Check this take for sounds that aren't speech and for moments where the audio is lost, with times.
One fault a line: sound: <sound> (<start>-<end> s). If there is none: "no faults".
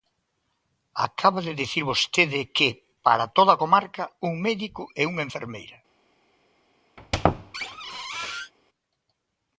sound: squeak (7.0-8.5 s)